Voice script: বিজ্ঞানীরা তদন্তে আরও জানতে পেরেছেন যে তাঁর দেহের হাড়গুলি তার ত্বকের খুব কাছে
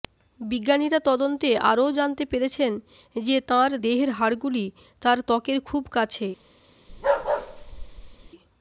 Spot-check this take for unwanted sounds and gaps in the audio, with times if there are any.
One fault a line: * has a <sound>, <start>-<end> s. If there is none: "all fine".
* has a bark, 6.9-8.3 s